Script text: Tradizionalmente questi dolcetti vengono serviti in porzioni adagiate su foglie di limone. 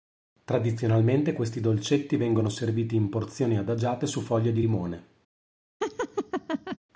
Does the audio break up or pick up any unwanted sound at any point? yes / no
yes